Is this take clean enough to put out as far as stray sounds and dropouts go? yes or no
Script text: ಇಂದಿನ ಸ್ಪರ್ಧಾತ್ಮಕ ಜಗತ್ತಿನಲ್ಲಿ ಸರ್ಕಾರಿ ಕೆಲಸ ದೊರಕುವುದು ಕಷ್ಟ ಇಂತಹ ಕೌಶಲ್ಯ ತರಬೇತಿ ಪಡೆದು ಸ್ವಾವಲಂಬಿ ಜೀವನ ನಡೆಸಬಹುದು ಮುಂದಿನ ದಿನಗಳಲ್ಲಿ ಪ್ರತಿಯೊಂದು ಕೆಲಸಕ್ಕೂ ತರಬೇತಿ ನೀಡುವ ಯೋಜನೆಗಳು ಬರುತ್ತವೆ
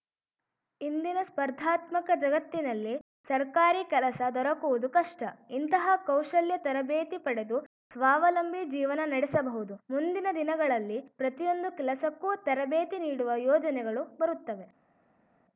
yes